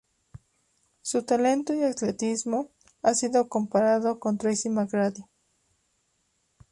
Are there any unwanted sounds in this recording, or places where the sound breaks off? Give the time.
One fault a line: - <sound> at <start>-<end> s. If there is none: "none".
none